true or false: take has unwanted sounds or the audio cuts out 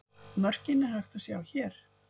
false